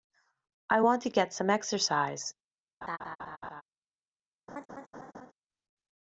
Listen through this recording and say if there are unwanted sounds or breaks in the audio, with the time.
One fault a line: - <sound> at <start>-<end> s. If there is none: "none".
- laugh at 2.8-3.6 s
- laugh at 4.5-5.3 s